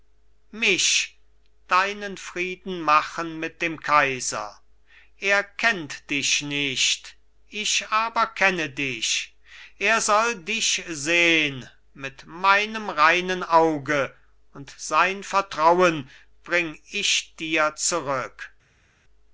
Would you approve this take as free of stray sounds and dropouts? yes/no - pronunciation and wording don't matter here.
yes